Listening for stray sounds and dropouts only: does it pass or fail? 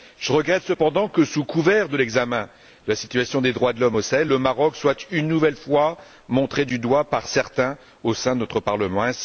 pass